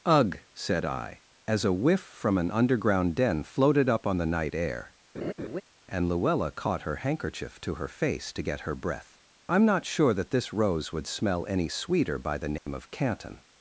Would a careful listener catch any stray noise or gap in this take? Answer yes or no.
yes